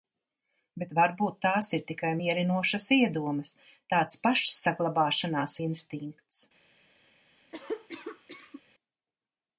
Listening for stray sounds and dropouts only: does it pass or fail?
fail